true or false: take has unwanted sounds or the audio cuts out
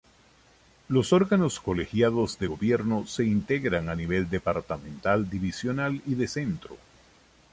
false